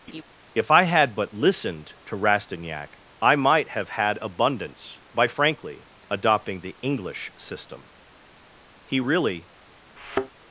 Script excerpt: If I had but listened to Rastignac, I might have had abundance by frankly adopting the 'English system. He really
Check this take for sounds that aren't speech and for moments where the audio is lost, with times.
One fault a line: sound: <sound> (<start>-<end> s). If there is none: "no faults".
sound: laugh (0.1-0.2 s)
sound: thud (10.0-10.3 s)